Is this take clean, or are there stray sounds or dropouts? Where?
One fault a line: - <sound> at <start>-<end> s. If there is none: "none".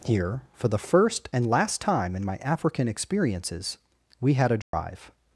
- dropout at 4.6-4.7 s